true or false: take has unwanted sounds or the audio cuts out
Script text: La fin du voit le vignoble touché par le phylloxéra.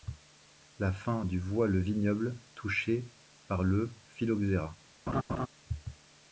true